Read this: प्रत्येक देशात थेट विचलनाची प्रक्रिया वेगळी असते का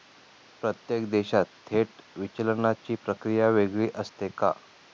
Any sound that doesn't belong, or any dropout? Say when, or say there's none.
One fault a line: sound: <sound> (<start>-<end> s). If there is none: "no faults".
no faults